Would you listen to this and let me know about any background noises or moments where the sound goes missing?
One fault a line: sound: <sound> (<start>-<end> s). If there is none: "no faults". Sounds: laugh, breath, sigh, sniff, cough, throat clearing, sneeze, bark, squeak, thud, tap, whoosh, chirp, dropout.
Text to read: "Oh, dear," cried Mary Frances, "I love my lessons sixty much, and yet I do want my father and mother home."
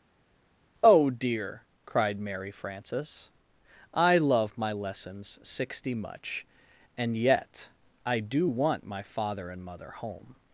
no faults